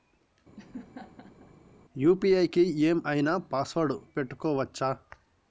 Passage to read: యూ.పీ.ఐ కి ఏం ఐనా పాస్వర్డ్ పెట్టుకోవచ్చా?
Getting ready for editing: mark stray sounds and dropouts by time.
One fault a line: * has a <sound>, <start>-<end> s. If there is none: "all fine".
* has a laugh, 0.6-1.5 s